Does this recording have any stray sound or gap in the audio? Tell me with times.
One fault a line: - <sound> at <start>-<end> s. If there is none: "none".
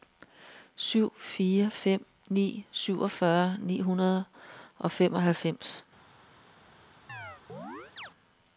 - chirp at 7.1-8.1 s